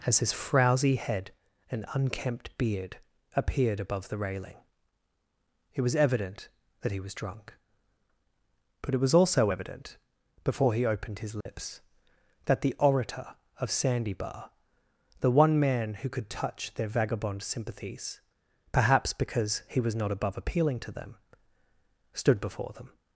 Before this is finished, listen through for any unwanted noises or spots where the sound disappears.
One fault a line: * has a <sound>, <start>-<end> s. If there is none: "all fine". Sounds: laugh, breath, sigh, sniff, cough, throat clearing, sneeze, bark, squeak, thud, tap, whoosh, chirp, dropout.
* has a dropout, 11.4-11.5 s